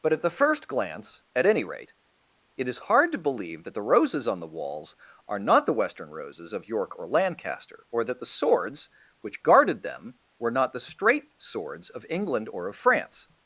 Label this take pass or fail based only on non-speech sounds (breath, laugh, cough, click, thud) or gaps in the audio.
pass